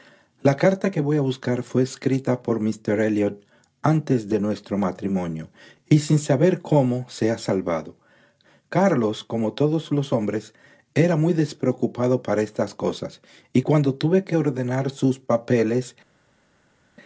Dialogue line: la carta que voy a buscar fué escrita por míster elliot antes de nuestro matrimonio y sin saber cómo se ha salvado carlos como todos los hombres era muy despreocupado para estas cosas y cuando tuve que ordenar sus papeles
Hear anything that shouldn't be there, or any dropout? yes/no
no